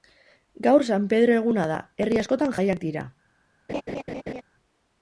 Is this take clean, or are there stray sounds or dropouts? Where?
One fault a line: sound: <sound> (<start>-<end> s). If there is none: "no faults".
sound: laugh (3.7-4.4 s)